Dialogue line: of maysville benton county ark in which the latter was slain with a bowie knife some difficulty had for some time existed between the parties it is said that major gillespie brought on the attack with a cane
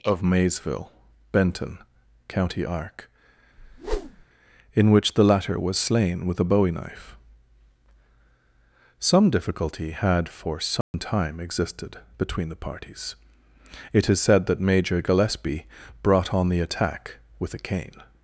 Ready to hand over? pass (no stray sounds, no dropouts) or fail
fail